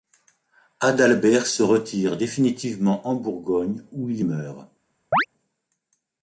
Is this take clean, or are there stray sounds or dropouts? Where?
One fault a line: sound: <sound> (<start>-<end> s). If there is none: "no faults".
sound: chirp (5.1-5.3 s)